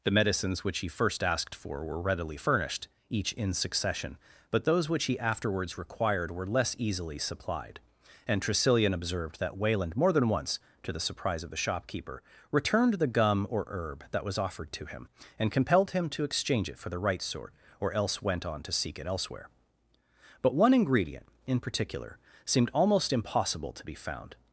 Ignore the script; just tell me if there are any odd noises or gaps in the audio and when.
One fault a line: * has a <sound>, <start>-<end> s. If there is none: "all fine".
all fine